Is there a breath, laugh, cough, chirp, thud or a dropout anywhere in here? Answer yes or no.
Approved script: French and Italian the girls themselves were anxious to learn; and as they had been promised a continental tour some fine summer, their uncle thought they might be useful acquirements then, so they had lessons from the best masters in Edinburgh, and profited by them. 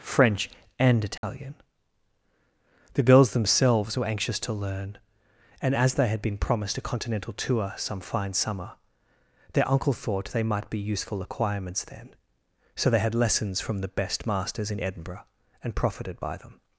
yes